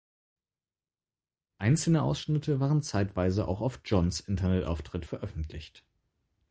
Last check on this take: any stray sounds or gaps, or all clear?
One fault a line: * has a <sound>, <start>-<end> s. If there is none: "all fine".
all fine